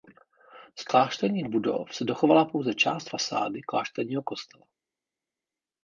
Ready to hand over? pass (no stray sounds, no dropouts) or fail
pass